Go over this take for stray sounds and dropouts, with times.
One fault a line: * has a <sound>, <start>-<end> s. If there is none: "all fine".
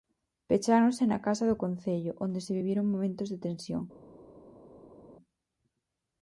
all fine